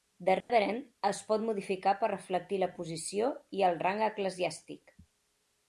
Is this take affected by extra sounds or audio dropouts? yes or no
yes